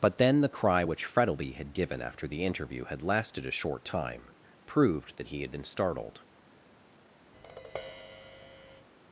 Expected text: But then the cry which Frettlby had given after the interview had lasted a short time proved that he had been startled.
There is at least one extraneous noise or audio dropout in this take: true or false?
true